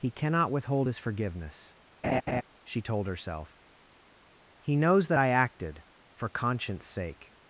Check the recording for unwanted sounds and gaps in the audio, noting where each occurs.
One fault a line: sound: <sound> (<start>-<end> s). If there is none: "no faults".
sound: laugh (2.0-2.4 s)